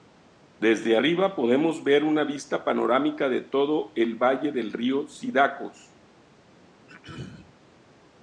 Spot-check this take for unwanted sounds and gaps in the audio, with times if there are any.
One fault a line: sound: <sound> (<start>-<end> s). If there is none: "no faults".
sound: throat clearing (6.9-7.5 s)